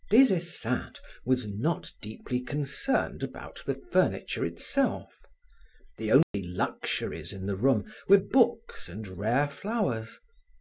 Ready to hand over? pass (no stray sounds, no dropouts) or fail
fail